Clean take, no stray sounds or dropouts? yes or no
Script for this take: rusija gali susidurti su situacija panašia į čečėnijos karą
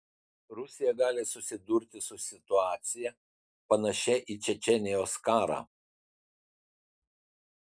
yes